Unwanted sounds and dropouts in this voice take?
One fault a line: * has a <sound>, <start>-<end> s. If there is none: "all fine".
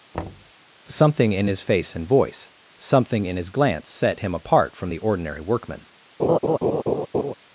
* has a thud, 0.1-0.5 s
* has a laugh, 6.2-7.3 s